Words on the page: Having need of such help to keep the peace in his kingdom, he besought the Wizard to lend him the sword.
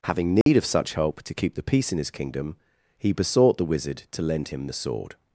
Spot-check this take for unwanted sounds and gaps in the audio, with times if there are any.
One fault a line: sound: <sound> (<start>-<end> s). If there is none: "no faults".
sound: dropout (0.4-0.5 s)